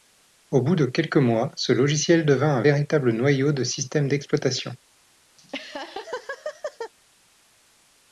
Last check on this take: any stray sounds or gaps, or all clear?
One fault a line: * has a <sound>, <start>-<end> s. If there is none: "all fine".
* has a laugh, 5.4-6.9 s